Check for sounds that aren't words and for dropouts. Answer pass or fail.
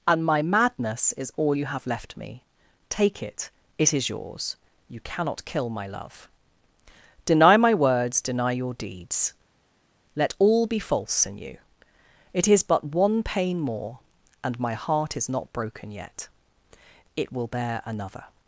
pass